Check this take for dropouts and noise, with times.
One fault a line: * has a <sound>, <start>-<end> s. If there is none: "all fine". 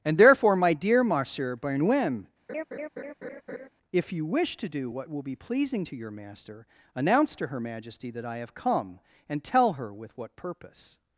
* has a laugh, 2.5-3.7 s